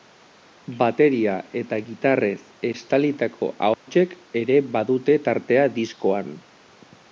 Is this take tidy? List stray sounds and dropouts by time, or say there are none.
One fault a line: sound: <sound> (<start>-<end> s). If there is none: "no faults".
sound: dropout (3.7-3.9 s)